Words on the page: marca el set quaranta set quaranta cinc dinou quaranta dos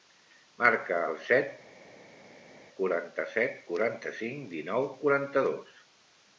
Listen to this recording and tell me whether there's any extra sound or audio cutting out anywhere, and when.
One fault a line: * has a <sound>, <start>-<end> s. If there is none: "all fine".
all fine